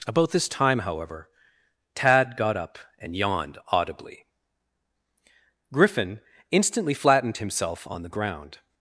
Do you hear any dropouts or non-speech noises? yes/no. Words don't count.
no